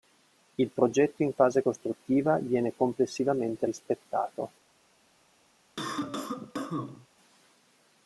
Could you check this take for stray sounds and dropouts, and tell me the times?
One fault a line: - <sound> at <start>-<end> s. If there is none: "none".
- cough at 5.8-7.1 s